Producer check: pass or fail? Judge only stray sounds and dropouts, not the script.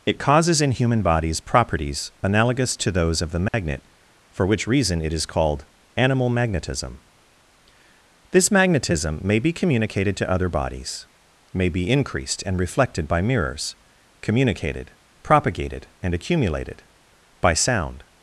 fail